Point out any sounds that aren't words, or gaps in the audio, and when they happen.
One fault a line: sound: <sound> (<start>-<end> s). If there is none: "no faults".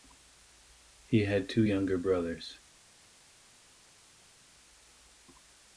no faults